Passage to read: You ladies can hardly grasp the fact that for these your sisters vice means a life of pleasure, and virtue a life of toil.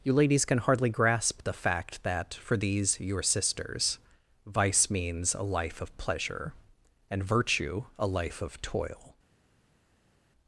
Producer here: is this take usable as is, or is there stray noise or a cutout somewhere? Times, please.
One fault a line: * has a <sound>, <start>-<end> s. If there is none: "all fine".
all fine